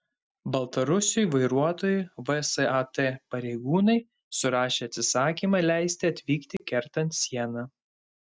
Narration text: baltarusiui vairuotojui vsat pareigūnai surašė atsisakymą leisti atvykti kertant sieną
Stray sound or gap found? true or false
true